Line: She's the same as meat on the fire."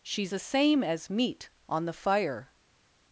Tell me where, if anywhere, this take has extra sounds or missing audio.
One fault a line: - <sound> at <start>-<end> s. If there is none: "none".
none